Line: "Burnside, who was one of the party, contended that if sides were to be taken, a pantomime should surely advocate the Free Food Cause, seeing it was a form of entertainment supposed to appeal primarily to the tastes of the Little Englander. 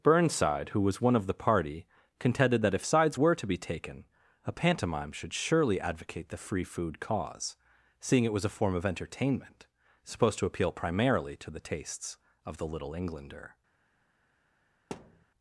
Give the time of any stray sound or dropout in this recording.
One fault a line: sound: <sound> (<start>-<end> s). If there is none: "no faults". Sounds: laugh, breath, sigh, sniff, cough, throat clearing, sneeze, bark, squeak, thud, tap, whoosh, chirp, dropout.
sound: thud (14.9-15.3 s)